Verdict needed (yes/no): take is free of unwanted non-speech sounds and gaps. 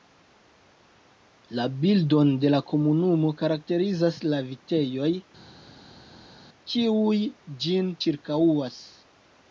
yes